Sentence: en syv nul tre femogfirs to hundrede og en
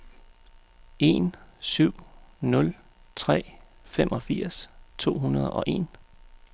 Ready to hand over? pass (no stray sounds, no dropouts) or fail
pass